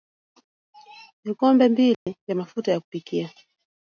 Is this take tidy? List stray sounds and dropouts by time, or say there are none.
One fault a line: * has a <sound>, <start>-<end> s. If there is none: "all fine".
* has a dropout, 1.9-2.1 s